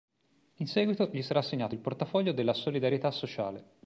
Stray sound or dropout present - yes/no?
no